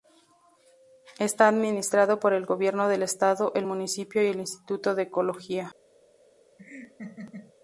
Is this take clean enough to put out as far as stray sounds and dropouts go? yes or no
no